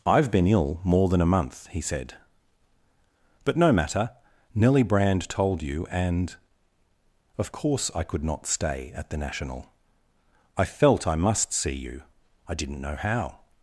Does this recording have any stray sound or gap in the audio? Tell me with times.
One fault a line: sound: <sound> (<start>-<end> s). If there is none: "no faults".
no faults